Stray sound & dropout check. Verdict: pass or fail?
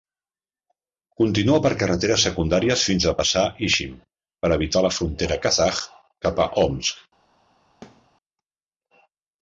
fail